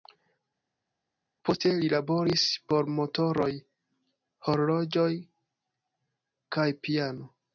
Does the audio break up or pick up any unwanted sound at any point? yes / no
no